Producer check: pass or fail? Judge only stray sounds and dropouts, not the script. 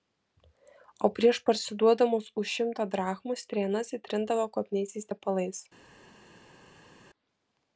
pass